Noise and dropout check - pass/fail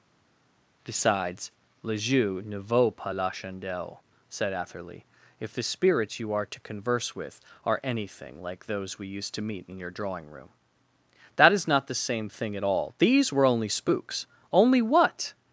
pass